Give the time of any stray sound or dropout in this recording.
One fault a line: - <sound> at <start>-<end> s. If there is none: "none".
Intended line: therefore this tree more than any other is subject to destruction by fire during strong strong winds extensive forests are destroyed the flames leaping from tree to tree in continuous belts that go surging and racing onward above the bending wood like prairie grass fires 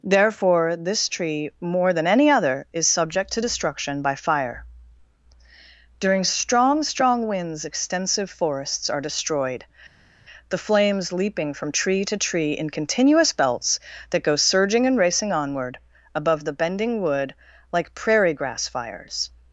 none